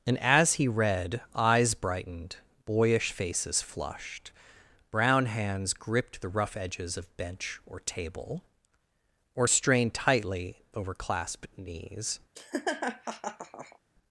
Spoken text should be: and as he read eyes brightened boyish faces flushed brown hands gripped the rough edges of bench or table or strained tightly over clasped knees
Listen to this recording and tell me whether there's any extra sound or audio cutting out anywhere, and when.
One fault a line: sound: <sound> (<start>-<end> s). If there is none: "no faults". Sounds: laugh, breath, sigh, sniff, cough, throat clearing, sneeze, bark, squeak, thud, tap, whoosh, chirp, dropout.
sound: laugh (12.4-13.8 s)